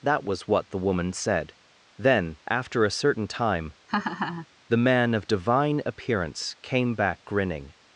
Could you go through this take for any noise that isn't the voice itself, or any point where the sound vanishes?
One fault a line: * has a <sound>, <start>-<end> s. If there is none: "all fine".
* has a laugh, 3.9-4.5 s